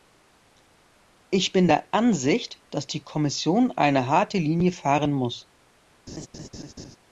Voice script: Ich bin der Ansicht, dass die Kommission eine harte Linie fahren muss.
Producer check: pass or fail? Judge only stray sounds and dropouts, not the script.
fail